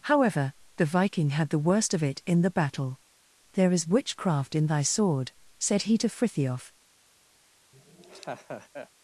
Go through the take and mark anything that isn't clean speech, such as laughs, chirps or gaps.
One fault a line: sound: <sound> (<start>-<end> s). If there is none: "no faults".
sound: laugh (7.7-8.9 s)